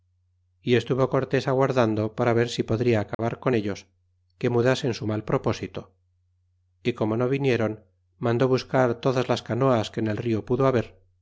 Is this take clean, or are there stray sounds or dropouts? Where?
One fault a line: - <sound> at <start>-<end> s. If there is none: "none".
- dropout at 3.1-3.2 s